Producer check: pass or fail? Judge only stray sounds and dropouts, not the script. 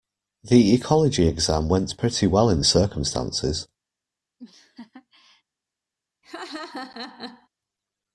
fail